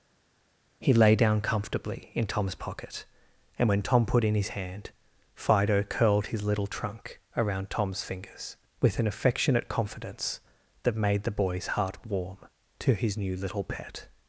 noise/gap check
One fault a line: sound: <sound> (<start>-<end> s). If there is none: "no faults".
no faults